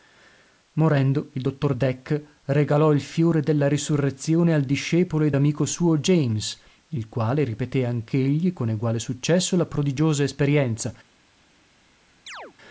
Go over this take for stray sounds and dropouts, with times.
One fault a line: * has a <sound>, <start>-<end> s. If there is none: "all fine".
* has a chirp, 12.3-12.5 s